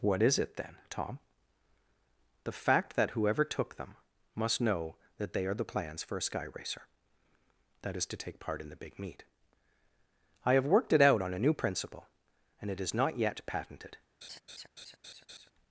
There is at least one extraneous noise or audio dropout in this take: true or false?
true